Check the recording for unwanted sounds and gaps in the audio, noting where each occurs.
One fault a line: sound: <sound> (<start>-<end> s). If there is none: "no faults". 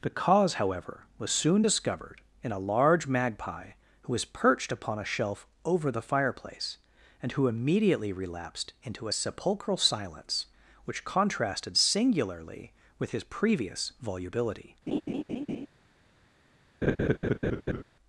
sound: laugh (14.9-15.7 s)
sound: laugh (16.8-17.8 s)